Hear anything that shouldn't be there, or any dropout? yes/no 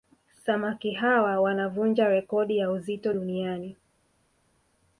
no